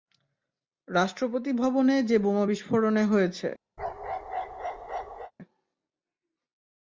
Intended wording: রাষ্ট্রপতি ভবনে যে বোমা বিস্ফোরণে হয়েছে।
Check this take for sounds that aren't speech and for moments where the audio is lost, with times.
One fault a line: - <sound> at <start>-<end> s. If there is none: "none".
- bark at 3.8-5.3 s